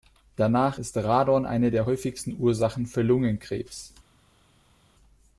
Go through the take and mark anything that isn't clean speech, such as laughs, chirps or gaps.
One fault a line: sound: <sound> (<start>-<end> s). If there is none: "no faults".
no faults